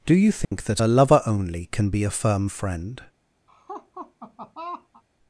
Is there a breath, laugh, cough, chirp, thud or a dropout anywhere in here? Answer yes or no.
yes